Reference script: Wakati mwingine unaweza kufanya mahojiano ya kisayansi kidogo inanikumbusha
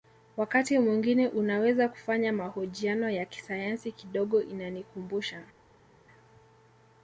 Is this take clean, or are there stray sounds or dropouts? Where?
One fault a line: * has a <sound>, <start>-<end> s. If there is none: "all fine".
all fine